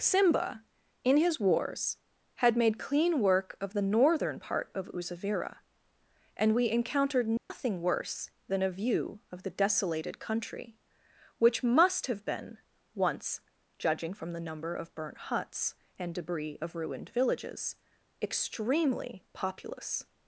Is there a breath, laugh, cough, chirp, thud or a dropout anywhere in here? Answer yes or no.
yes